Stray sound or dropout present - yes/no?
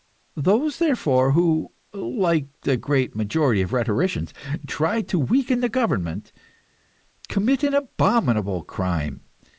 no